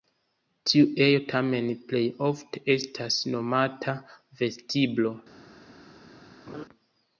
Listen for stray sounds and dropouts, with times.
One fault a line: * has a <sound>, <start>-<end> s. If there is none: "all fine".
* has a laugh, 6.5-6.7 s